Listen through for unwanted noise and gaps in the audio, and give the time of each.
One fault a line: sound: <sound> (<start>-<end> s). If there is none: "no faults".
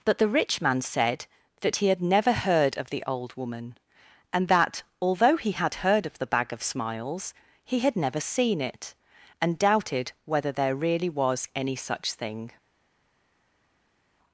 no faults